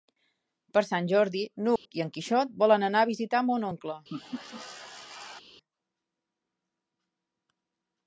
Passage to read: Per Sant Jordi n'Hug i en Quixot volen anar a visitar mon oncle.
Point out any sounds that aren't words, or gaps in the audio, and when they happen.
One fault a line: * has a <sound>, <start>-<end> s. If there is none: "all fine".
* has a dropout, 1.8-1.9 s
* has a laugh, 4.1-5.4 s